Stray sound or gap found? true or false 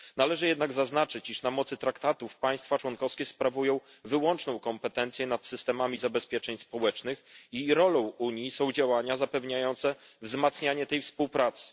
false